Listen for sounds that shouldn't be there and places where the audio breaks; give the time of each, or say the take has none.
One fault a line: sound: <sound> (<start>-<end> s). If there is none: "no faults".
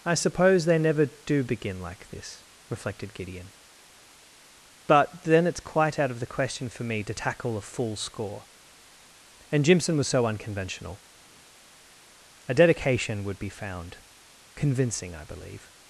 no faults